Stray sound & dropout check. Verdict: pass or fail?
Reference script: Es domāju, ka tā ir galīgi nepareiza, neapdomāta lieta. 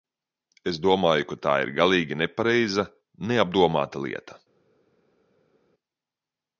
pass